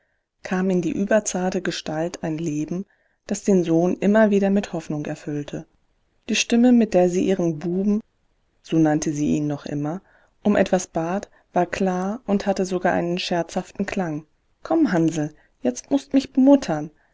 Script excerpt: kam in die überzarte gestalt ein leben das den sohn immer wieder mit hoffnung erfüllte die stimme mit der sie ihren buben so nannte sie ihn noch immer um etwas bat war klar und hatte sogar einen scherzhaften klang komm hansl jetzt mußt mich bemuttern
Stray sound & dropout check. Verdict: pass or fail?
pass